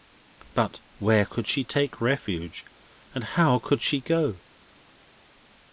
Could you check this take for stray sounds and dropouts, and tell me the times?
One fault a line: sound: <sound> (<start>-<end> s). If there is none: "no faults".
no faults